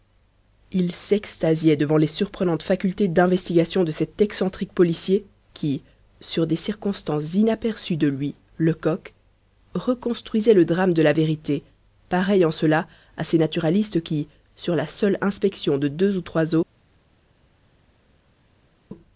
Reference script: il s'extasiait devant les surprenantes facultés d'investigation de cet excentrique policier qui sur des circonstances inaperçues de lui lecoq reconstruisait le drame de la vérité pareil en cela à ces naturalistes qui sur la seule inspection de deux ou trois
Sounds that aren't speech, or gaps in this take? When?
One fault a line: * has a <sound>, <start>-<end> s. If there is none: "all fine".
all fine